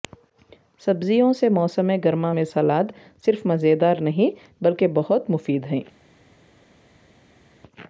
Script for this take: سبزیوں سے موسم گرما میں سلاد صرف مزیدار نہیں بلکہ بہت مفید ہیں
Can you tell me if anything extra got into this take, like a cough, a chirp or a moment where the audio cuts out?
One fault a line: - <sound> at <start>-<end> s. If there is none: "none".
none